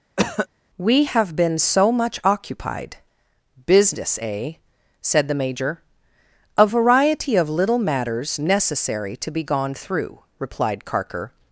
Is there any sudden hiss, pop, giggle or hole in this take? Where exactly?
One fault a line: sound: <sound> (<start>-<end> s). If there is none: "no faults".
sound: cough (0.2-0.5 s)